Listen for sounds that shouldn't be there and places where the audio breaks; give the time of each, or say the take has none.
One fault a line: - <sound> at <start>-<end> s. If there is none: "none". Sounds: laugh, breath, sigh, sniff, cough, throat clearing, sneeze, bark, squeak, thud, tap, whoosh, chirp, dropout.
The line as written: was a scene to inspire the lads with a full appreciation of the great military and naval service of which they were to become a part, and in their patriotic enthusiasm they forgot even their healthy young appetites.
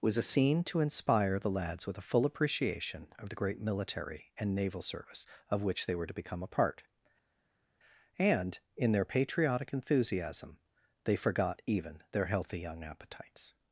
none